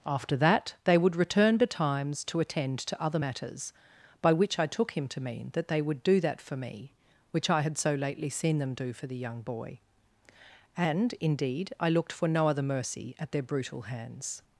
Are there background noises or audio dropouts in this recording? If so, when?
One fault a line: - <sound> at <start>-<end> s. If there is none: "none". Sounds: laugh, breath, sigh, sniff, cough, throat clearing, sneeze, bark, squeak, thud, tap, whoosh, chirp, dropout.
none